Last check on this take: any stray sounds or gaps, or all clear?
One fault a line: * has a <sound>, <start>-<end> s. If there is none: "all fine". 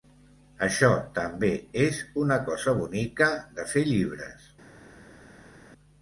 all fine